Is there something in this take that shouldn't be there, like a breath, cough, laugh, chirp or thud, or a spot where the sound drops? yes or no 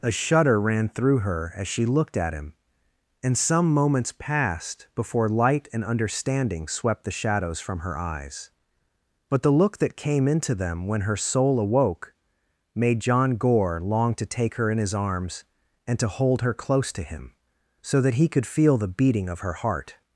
no